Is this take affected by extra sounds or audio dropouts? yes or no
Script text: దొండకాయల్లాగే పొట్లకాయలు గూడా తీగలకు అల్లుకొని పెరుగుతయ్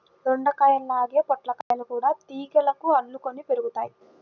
yes